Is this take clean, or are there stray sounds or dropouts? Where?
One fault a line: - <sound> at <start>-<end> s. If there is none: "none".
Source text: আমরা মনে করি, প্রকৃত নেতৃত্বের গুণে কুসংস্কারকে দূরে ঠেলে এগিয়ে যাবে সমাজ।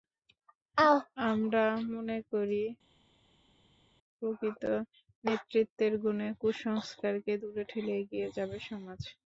none